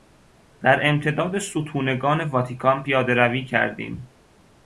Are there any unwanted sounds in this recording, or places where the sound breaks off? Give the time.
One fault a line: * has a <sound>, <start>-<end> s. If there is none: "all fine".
all fine